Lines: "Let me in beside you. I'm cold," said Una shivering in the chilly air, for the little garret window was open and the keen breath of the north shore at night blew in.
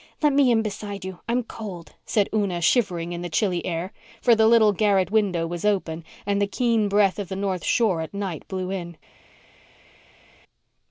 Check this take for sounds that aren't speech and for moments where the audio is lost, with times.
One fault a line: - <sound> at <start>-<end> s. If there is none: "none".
none